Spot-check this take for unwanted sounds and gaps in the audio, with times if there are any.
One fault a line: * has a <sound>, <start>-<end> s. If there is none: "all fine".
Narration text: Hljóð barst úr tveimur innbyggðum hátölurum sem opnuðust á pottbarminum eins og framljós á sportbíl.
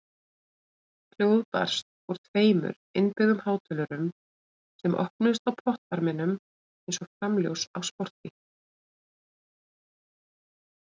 all fine